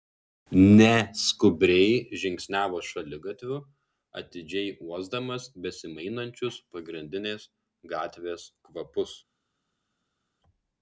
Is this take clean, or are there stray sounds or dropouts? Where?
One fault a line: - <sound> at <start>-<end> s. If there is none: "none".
none